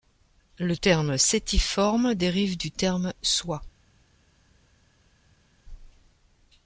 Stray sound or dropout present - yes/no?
no